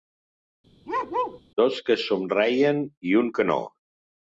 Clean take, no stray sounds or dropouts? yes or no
no